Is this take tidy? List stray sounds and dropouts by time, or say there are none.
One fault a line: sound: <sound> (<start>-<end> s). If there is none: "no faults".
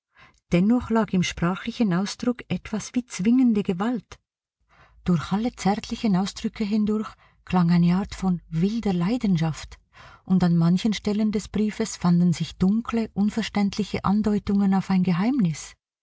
no faults